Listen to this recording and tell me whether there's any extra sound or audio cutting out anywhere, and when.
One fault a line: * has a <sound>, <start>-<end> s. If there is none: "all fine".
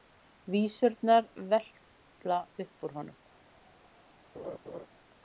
* has a laugh, 4.3-4.9 s